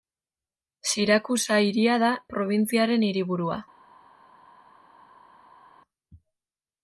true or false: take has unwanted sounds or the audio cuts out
false